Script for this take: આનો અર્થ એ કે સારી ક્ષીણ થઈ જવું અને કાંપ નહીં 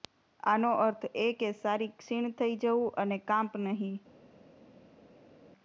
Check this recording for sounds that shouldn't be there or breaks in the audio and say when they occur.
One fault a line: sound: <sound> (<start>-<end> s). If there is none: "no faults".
no faults